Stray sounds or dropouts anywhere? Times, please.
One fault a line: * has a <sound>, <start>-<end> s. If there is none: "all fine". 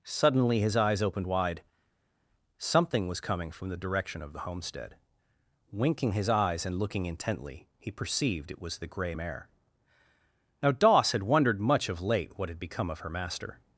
all fine